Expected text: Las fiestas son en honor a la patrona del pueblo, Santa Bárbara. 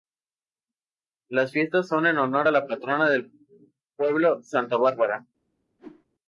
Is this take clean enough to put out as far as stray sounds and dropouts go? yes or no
no